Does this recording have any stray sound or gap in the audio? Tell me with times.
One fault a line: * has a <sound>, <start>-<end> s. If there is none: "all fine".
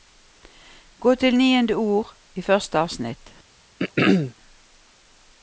* has a throat clearing, 3.8-4.3 s